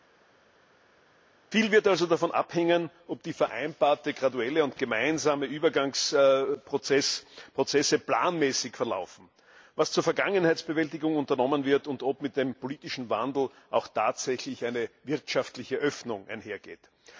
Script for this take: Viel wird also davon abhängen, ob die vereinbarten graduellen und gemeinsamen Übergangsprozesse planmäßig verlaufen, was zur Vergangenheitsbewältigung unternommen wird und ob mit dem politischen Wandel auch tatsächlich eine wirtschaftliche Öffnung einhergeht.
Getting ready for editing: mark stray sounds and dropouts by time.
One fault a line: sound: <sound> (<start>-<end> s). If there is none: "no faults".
no faults